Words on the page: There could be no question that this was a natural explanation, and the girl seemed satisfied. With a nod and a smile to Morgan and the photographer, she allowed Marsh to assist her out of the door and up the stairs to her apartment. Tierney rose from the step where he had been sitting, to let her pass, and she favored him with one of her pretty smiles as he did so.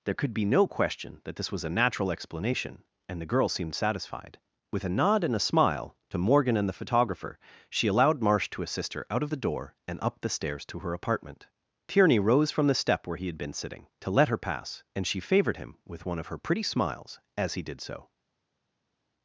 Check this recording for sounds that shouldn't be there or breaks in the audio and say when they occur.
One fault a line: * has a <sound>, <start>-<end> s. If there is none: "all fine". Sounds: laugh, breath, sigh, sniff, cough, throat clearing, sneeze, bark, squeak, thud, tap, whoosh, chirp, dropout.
all fine